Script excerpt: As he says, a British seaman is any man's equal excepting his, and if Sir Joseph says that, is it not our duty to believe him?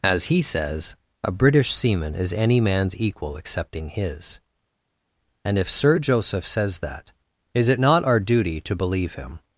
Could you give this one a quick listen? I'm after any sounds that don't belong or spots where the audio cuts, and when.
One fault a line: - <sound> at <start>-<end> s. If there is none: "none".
none